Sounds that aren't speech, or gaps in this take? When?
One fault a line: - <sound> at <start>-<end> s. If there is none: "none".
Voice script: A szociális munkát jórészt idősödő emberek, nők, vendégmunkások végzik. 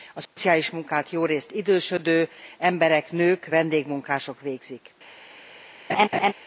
- dropout at 0.3-0.4 s
- laugh at 5.9-6.3 s